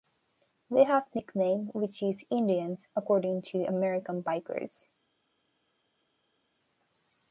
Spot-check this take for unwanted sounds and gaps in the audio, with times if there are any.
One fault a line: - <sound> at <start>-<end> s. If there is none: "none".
none